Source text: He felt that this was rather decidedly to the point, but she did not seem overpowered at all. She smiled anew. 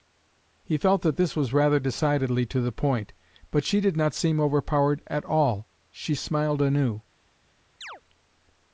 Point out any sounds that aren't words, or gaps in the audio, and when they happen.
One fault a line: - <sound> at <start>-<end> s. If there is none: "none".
- chirp at 7.8-8.0 s